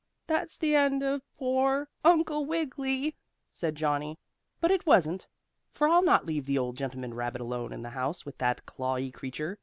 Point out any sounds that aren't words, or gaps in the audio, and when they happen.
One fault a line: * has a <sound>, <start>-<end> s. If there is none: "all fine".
all fine